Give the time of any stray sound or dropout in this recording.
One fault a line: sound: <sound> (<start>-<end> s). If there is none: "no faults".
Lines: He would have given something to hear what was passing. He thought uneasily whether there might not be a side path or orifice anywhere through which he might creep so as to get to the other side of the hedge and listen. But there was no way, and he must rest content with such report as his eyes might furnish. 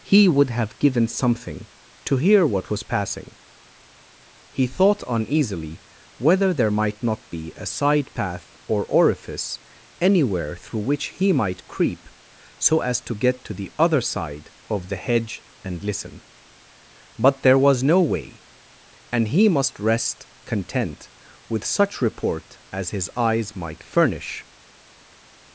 no faults